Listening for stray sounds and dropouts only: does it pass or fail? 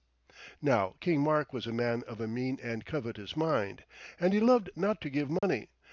fail